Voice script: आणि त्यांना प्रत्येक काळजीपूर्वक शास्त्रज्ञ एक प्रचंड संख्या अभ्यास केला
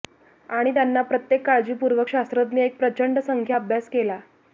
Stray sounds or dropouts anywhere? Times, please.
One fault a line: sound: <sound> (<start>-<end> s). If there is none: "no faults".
no faults